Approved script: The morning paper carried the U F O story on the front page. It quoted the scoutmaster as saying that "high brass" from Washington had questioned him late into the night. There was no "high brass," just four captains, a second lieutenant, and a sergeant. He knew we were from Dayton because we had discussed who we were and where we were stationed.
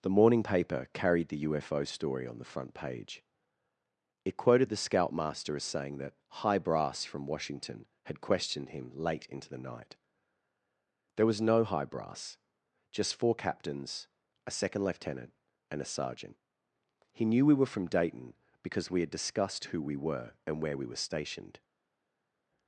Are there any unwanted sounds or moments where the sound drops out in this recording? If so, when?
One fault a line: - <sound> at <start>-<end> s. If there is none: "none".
none